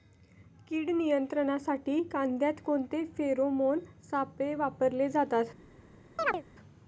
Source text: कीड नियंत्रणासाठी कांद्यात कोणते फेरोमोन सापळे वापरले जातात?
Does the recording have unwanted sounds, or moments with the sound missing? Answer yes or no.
yes